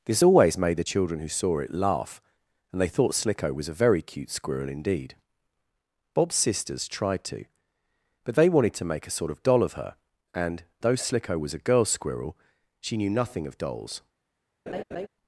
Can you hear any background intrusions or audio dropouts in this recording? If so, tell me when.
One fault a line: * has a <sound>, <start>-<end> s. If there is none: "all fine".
* has a laugh, 14.7-15.1 s